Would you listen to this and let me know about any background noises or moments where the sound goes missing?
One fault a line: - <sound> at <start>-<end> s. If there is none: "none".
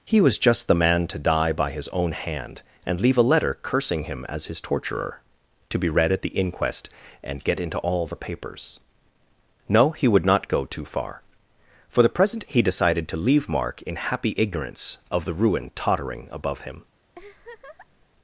- laugh at 17.1-18.1 s